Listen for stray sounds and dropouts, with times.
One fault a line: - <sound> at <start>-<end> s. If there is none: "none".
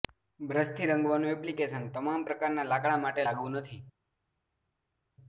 none